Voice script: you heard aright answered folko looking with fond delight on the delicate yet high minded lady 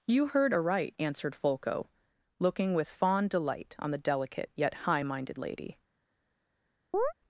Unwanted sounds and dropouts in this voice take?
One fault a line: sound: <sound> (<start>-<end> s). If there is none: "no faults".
sound: chirp (6.9-7.1 s)